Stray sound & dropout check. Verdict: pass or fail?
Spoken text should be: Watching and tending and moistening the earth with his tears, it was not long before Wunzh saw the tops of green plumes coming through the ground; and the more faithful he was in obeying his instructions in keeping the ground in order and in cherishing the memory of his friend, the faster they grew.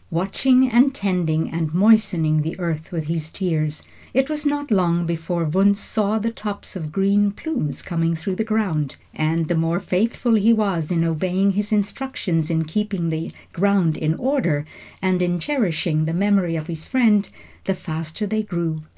pass